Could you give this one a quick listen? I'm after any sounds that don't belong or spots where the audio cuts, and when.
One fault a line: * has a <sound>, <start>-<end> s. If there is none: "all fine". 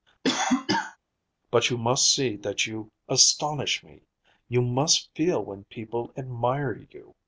* has a cough, 0.2-1.0 s